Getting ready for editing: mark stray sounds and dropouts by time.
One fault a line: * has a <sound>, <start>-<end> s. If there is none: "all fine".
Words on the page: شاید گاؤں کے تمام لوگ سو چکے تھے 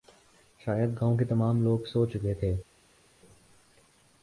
all fine